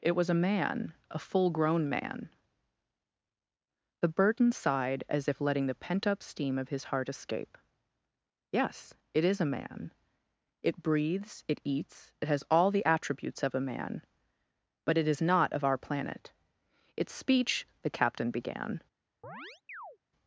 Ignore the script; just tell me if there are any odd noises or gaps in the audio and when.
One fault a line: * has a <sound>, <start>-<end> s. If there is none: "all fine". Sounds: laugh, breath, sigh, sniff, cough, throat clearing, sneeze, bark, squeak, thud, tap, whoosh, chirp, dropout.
* has a chirp, 19.2-20.0 s